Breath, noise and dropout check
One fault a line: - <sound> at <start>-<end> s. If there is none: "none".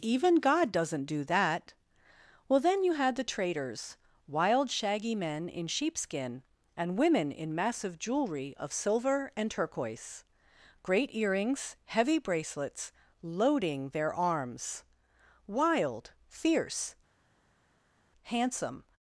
none